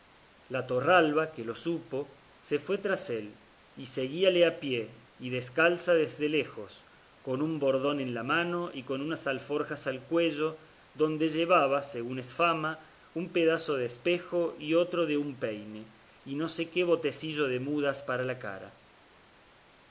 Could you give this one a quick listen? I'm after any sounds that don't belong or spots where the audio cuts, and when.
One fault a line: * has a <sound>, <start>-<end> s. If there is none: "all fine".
all fine